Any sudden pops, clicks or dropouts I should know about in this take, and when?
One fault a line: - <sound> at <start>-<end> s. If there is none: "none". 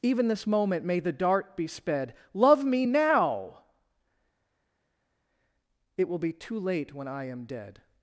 none